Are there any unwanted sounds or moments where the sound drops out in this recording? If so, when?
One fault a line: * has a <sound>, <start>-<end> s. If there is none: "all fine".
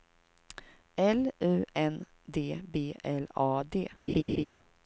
* has a laugh, 4.1-4.5 s